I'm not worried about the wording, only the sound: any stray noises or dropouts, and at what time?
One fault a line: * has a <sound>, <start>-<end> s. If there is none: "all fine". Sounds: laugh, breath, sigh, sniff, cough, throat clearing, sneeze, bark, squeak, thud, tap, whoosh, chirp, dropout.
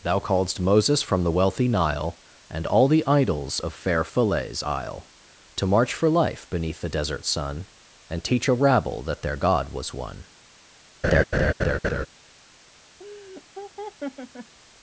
* has a laugh, 11.0-12.1 s
* has a laugh, 13.0-14.5 s